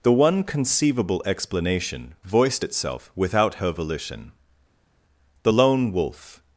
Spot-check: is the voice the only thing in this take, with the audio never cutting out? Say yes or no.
yes